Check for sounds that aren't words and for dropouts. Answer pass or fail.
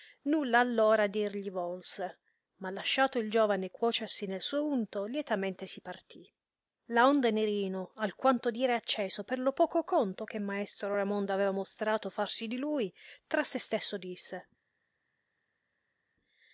pass